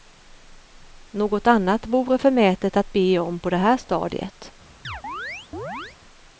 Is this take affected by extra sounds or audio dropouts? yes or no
yes